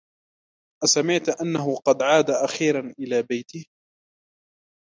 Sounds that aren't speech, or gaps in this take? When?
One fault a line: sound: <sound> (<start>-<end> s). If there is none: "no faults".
no faults